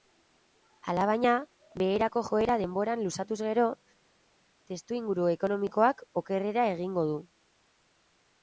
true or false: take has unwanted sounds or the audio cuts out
false